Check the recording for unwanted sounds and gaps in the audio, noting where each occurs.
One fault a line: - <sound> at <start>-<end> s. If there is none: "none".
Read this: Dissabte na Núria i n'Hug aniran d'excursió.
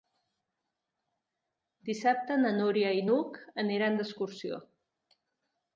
none